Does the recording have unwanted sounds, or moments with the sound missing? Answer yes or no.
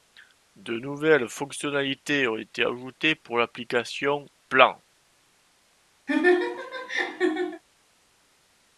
yes